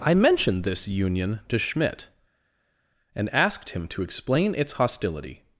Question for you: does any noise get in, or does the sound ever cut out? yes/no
no